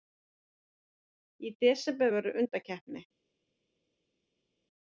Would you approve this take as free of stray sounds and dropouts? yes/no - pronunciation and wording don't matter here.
yes